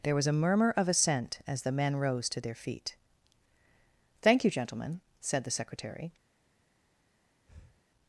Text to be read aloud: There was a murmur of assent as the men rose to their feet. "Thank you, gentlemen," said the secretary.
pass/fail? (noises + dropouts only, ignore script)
fail